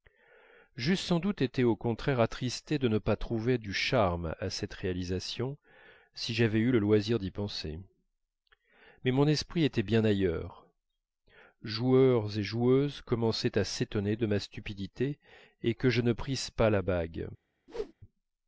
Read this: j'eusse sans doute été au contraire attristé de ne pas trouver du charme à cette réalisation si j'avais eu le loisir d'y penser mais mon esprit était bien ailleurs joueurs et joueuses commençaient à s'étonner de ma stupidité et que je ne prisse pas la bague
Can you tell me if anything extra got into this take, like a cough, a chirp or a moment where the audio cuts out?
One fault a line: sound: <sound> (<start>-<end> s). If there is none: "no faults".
sound: whoosh (17.7-17.9 s)